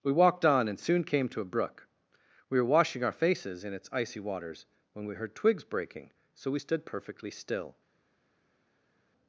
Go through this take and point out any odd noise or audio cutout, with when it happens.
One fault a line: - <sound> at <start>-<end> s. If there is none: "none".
none